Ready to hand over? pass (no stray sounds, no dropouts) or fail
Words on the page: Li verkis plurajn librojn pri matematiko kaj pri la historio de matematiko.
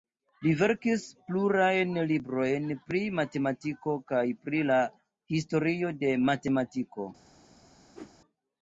fail